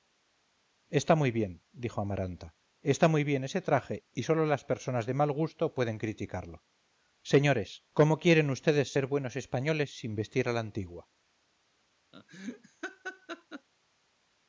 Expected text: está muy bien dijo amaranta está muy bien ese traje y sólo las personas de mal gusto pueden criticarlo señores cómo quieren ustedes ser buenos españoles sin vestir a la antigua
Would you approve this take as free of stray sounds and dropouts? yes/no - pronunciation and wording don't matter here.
no